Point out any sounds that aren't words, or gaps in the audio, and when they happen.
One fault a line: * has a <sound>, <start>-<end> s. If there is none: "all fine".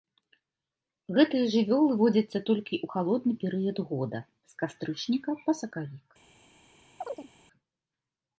* has a chirp, 7.0-7.3 s